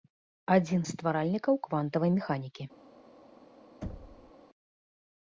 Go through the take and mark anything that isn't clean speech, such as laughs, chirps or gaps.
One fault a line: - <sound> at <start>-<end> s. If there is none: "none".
- thud at 3.8-4.3 s